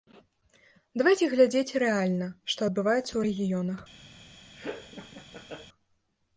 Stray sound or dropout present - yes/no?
yes